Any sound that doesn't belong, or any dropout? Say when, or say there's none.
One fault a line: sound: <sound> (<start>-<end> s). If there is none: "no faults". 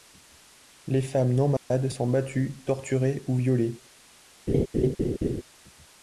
sound: dropout (1.6-1.7 s)
sound: laugh (4.5-5.4 s)